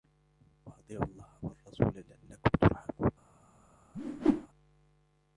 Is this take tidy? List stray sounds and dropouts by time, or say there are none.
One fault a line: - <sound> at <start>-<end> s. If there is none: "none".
- whoosh at 3.9-4.5 s